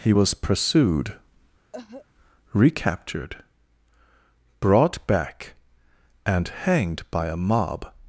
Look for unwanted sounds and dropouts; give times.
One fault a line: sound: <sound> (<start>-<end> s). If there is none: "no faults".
sound: cough (1.7-2.1 s)